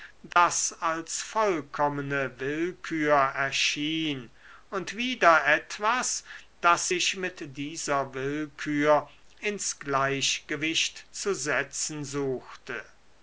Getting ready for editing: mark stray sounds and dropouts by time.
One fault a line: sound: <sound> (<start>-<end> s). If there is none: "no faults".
sound: dropout (0.3-0.4 s)